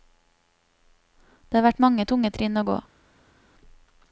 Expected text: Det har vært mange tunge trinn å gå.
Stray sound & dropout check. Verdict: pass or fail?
pass